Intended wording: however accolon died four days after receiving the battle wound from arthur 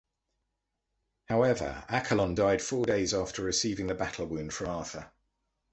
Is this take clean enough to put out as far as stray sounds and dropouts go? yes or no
yes